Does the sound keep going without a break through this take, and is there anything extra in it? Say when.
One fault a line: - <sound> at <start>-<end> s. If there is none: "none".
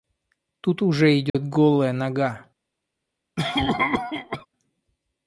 - dropout at 1.3-1.3 s
- cough at 3.4-4.5 s